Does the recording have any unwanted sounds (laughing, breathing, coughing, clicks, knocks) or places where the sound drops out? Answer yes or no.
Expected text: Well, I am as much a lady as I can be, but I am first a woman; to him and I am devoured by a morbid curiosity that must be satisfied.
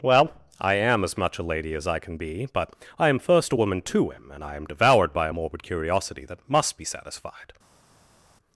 no